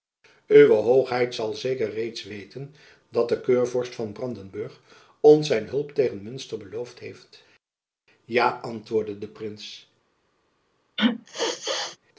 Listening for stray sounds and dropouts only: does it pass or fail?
fail